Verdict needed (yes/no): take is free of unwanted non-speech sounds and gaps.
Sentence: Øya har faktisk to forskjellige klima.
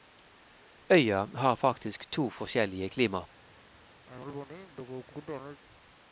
no